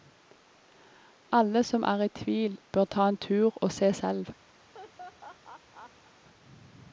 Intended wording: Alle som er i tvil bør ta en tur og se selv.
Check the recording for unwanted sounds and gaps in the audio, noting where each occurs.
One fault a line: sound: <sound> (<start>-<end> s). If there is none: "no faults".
sound: laugh (4.6-6.1 s)